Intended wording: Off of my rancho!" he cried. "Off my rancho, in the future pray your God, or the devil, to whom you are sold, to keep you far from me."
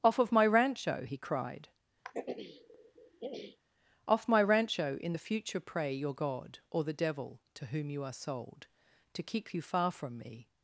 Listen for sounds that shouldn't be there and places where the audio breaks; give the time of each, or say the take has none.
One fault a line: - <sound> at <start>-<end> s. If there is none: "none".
- throat clearing at 2.0-3.6 s